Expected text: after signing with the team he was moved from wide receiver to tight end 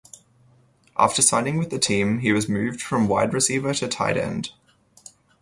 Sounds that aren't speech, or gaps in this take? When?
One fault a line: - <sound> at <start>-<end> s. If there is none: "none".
none